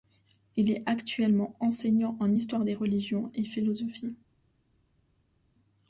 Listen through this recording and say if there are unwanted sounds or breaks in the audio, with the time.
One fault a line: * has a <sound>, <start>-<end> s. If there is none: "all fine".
all fine